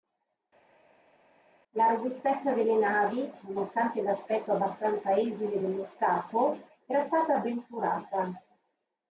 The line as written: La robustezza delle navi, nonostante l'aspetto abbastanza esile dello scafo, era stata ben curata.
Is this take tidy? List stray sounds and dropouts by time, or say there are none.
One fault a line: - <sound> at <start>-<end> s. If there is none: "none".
none